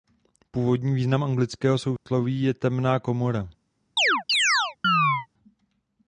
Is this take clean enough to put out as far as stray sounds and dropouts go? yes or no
no